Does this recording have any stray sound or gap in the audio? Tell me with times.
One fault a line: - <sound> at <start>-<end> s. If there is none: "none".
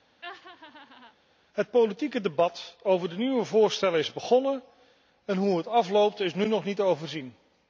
- laugh at 0.2-1.2 s